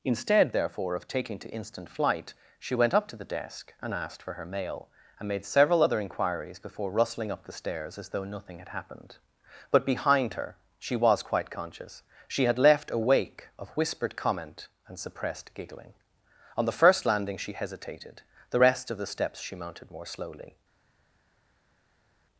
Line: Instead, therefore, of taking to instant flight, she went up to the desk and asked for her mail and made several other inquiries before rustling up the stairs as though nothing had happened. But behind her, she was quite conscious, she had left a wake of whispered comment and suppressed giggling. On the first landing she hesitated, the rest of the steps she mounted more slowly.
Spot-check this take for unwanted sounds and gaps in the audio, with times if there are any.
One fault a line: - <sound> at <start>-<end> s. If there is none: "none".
none